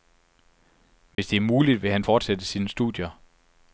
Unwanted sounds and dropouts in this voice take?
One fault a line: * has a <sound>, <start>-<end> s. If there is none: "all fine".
* has a dropout, 1.1-1.2 s